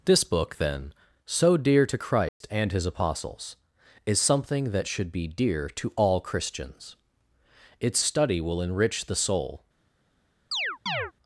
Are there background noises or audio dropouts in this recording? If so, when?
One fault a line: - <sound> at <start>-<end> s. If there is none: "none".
- dropout at 2.3-2.4 s
- chirp at 10.5-11.1 s